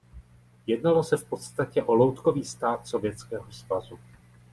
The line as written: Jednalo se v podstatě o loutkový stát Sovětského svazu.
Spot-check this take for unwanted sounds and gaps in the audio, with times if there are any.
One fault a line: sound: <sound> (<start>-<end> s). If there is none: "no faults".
no faults